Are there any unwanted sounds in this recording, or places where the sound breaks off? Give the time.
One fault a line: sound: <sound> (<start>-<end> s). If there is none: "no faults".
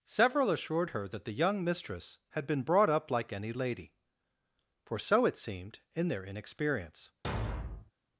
sound: thud (7.2-7.9 s)